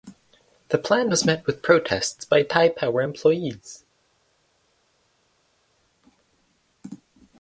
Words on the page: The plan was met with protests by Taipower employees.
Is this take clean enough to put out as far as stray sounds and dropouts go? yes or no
yes